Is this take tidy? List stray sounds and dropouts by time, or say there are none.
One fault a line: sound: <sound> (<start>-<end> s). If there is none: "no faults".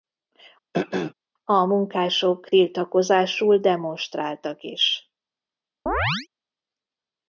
sound: throat clearing (0.7-1.1 s)
sound: chirp (5.9-6.3 s)